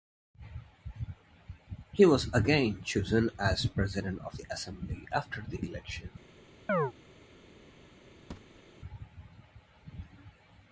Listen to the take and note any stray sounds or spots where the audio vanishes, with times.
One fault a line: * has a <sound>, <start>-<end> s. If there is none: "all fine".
* has a chirp, 6.7-6.9 s
* has a thud, 8.3-8.6 s